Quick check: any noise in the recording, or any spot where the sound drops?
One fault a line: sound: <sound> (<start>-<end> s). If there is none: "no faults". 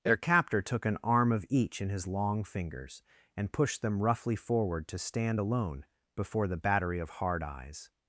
no faults